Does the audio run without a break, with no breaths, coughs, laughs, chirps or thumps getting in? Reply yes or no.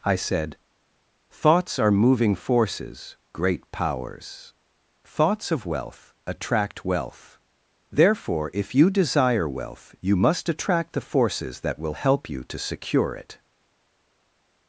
yes